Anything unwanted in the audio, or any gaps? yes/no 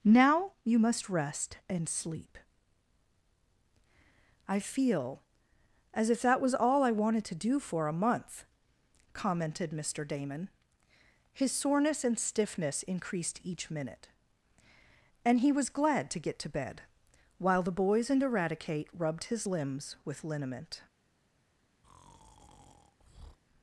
yes